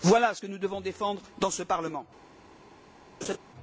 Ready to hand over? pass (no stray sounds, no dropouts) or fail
fail